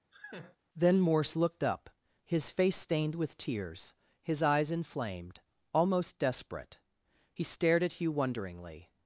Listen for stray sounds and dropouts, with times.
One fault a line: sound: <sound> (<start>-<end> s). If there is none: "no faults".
sound: laugh (0.1-0.6 s)